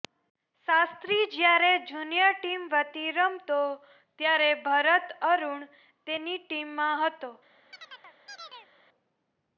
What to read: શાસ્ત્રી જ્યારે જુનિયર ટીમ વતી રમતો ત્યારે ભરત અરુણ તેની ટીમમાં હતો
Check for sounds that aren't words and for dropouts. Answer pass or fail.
fail